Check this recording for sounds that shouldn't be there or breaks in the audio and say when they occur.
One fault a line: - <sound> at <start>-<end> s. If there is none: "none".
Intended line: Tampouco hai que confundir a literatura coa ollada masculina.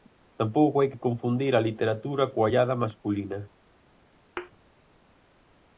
- thud at 4.4-4.5 s